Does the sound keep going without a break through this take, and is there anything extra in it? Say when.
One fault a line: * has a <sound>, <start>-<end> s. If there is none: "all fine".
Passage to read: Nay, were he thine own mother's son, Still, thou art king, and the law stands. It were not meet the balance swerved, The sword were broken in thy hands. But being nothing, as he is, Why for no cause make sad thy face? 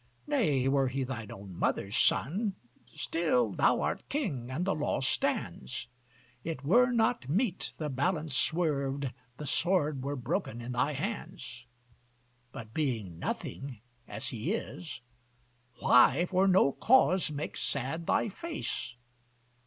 all fine